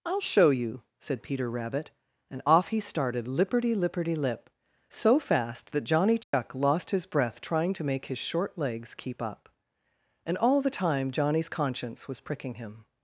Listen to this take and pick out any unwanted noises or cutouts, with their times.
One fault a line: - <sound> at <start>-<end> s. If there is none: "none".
- dropout at 6.2-6.3 s